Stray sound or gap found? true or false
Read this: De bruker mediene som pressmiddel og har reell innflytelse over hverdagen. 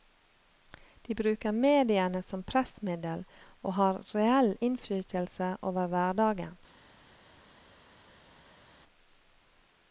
false